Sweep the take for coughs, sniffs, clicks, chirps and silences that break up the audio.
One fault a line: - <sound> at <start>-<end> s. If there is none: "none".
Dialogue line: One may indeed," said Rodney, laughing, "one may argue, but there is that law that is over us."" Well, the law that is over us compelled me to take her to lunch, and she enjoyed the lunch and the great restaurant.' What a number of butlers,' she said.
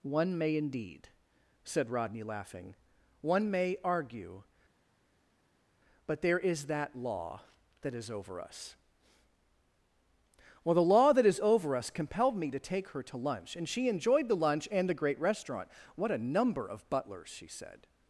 none